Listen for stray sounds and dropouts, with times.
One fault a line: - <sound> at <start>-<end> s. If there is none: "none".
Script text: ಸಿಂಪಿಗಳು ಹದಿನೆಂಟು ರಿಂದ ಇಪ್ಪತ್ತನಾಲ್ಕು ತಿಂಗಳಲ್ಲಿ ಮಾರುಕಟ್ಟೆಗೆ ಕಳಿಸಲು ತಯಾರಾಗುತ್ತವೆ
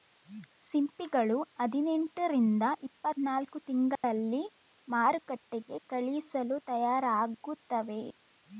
- dropout at 4.0-4.0 s